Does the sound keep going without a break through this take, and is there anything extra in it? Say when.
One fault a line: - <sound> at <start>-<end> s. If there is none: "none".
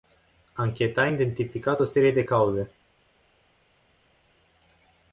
none